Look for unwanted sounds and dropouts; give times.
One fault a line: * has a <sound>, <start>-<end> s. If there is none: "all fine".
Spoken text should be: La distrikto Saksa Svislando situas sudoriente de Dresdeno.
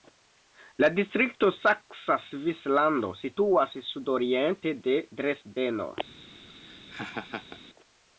* has a laugh, 6.5-7.6 s